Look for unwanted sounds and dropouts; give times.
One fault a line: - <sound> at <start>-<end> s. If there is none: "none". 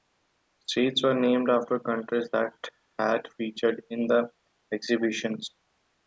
none